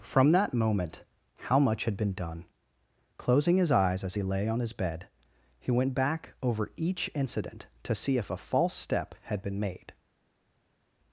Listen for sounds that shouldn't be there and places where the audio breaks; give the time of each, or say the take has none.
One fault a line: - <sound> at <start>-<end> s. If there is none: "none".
none